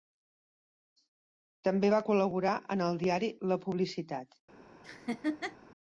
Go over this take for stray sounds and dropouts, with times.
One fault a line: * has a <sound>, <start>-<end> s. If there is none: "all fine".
* has a laugh, 4.8-5.6 s